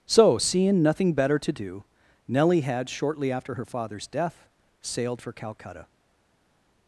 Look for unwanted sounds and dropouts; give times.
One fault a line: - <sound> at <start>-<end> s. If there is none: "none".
none